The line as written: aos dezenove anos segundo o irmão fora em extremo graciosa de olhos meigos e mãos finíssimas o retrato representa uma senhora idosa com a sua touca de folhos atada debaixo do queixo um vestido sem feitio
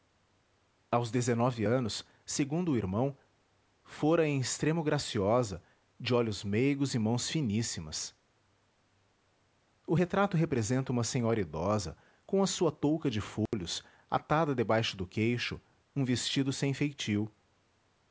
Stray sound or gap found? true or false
true